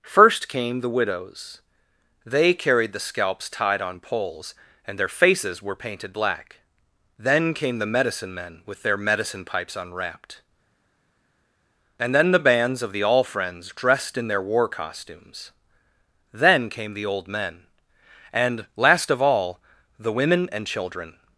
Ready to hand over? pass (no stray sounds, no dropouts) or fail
pass